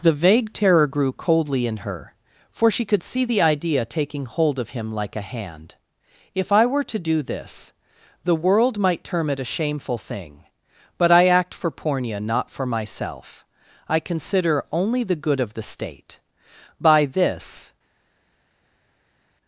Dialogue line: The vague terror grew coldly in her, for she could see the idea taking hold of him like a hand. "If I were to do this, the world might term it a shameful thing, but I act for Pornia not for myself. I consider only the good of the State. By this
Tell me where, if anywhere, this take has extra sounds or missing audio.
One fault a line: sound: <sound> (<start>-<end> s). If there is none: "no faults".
no faults